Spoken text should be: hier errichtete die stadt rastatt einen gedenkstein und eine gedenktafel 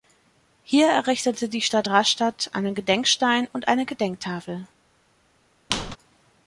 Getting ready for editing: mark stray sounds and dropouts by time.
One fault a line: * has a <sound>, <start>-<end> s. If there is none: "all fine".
* has a squeak, 5.7-6.0 s